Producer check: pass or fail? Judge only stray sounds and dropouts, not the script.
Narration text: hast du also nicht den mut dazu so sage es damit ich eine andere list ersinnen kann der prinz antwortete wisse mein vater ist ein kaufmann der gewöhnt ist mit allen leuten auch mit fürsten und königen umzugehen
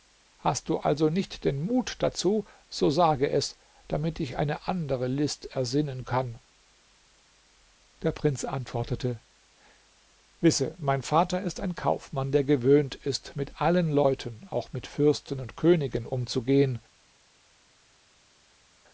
pass